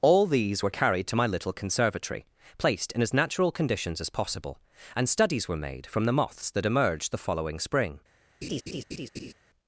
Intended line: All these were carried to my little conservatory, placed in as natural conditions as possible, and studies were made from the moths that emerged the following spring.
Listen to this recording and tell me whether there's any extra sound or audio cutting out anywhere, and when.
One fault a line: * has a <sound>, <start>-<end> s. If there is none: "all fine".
* has a laugh, 8.4-9.3 s